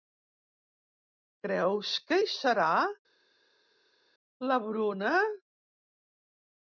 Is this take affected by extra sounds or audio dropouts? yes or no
no